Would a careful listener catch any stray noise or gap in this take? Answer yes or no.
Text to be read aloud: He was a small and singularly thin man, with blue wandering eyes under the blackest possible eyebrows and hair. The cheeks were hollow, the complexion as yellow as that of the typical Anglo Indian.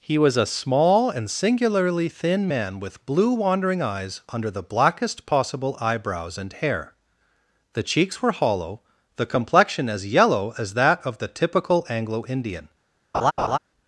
yes